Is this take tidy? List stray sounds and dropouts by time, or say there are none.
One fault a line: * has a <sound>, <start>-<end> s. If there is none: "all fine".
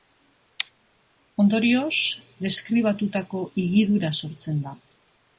all fine